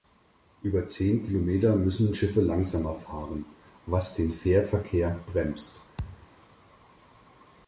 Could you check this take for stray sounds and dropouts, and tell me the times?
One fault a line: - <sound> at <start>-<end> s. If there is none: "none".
- thud at 6.0-6.3 s